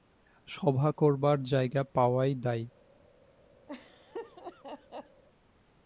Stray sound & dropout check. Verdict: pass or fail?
fail